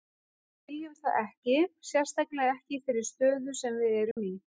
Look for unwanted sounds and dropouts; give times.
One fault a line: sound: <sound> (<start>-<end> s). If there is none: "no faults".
sound: dropout (4.1-4.2 s)